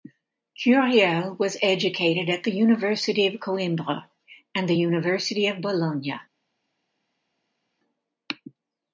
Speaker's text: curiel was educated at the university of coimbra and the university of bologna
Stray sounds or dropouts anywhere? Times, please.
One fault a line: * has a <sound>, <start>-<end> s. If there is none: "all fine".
all fine